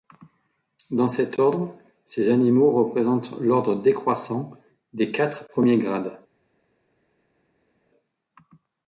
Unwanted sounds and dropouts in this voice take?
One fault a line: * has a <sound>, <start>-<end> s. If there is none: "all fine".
all fine